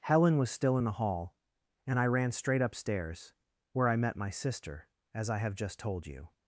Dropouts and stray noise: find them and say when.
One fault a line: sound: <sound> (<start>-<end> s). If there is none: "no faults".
no faults